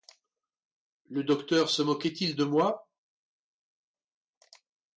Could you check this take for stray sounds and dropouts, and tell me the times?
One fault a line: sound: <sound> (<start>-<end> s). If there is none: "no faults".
no faults